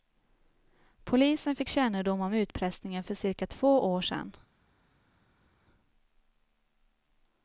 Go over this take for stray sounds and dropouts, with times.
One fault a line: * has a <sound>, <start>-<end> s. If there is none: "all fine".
all fine